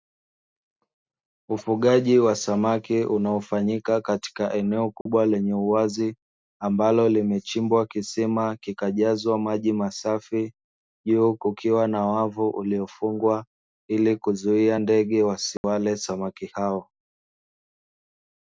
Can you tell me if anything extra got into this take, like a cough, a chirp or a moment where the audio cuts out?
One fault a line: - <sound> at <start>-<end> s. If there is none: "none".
- dropout at 5.0-5.1 s
- dropout at 15.6-15.6 s